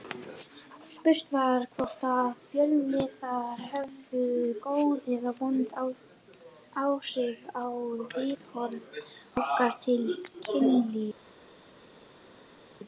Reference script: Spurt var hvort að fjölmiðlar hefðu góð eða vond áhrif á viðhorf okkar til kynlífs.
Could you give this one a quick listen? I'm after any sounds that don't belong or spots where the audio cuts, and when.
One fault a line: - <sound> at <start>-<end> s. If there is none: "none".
none